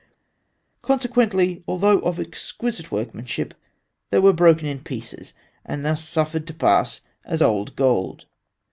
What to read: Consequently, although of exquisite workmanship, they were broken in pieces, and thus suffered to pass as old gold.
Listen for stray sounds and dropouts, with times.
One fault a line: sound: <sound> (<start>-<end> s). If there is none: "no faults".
no faults